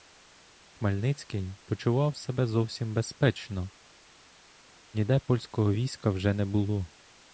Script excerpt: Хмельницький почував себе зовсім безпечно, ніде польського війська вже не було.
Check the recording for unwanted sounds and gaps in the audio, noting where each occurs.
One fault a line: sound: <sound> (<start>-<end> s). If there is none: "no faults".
no faults